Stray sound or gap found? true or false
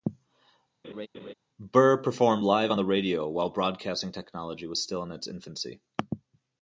true